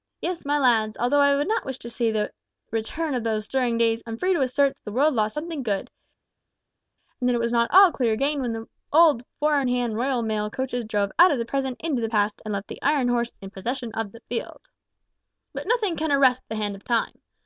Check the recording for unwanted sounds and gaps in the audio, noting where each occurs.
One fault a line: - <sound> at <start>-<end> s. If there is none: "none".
none